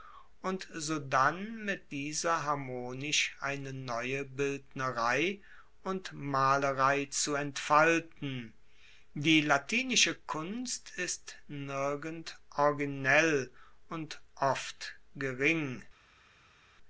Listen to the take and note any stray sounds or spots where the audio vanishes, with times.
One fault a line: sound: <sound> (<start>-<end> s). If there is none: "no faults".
no faults